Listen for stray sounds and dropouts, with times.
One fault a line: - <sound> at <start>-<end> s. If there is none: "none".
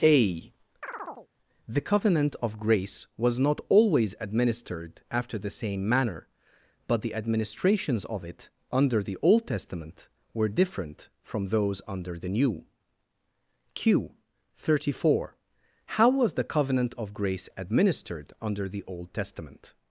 - chirp at 0.8-1.3 s